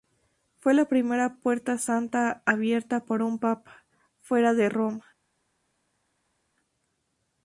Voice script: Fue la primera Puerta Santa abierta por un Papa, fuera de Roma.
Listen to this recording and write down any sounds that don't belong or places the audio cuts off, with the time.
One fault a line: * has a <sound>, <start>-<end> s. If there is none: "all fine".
all fine